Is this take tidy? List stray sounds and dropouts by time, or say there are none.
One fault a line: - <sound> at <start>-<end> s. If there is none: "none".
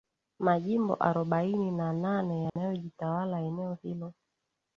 - dropout at 2.5-2.6 s